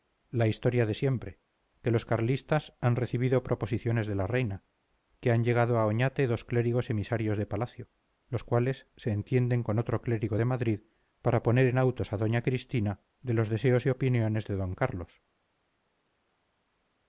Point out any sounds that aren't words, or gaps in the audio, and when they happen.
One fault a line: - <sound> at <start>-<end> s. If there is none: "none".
none